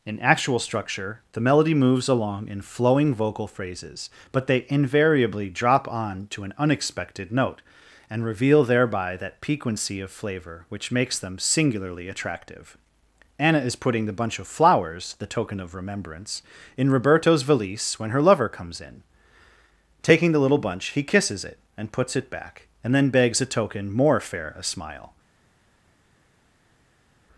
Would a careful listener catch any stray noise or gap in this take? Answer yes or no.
no